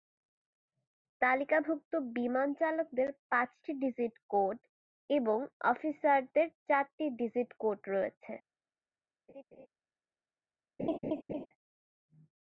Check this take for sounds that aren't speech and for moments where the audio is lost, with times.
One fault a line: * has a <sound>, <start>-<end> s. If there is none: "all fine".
* has a laugh, 9.3-9.7 s
* has a laugh, 10.8-11.5 s